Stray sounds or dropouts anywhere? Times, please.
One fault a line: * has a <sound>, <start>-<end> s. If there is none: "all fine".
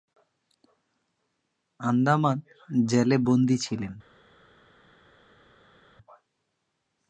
all fine